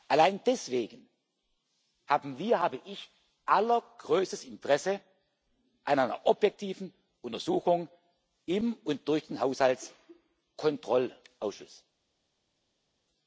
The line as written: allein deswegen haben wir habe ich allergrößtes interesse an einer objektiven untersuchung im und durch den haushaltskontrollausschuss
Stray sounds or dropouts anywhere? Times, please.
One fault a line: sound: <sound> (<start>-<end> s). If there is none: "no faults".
no faults